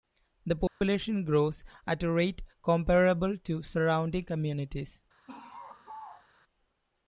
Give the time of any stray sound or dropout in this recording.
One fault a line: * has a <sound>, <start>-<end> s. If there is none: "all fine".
* has a dropout, 0.7-0.8 s
* has a laugh, 5.3-6.3 s